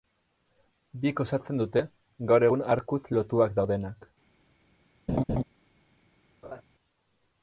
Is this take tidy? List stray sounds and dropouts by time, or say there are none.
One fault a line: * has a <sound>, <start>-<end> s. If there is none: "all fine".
* has a laugh, 5.1-5.4 s
* has a laugh, 6.4-6.6 s